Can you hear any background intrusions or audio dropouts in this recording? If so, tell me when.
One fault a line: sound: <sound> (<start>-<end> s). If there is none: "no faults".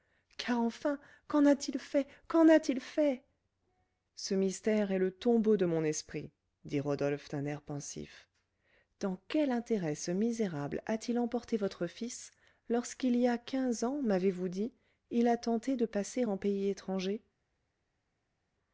no faults